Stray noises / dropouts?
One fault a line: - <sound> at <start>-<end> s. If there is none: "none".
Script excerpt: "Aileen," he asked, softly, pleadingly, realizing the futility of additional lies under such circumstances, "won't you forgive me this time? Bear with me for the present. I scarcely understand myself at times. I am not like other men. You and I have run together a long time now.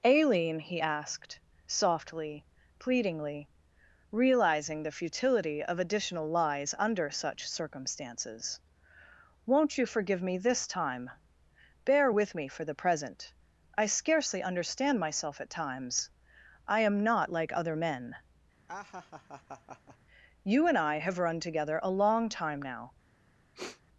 - laugh at 18.7-20.0 s
- sniff at 23.5-23.8 s